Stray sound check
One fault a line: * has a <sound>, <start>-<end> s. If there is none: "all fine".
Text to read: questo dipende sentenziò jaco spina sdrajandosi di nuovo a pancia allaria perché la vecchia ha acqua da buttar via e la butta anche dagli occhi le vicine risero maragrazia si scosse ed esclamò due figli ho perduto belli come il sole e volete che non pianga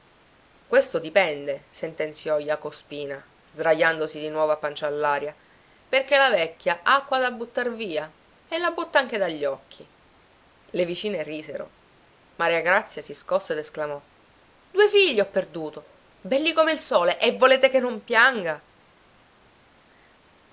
all fine